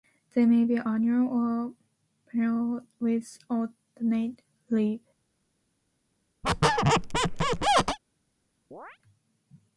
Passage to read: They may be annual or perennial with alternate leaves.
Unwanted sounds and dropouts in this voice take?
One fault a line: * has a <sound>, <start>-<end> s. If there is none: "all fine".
* has a squeak, 6.4-8.0 s
* has a chirp, 8.7-9.0 s